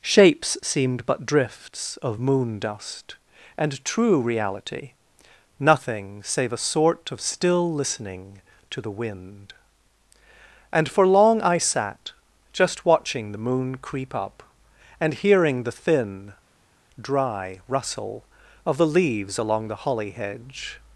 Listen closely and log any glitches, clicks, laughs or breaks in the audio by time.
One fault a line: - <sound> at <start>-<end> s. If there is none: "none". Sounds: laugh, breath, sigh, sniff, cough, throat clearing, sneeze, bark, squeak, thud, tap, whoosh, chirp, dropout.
none